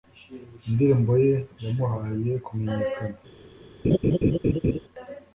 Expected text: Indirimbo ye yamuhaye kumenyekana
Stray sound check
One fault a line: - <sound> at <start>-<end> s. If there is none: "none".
- laugh at 3.8-4.8 s